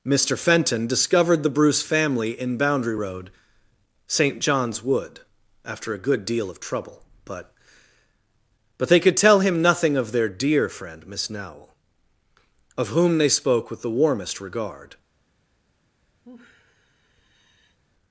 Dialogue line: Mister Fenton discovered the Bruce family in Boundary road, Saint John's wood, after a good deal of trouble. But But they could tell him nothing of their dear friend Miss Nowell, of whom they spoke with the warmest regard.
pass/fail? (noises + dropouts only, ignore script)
fail